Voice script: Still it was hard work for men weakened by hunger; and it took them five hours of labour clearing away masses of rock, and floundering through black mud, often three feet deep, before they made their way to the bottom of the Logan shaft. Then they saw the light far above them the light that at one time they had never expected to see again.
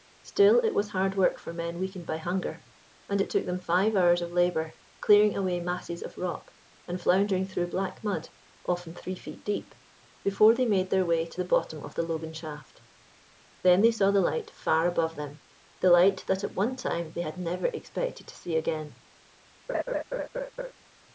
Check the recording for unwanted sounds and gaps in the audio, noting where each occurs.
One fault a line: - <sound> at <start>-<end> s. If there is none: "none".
- laugh at 19.7-20.7 s